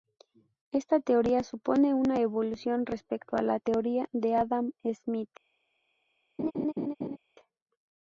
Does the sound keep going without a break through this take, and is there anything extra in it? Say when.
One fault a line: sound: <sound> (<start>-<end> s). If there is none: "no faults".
sound: laugh (6.4-7.2 s)